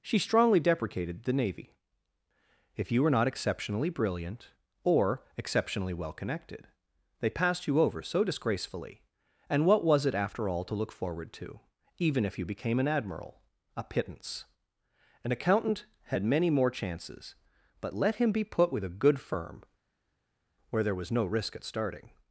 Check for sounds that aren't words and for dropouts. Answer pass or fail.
pass